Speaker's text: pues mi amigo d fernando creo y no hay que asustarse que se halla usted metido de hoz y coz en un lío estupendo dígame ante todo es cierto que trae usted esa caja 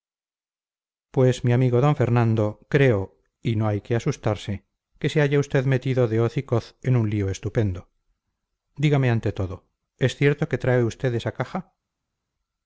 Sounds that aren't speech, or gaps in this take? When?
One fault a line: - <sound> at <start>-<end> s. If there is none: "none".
none